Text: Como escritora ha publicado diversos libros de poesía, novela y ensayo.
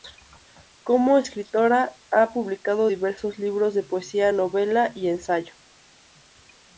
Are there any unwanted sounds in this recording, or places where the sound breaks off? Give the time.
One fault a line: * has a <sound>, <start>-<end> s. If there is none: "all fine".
all fine